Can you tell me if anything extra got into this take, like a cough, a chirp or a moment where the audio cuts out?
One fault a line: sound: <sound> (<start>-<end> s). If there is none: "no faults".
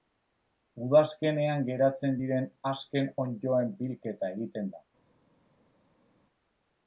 no faults